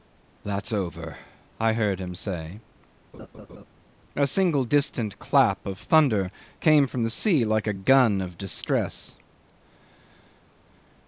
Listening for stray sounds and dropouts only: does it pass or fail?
fail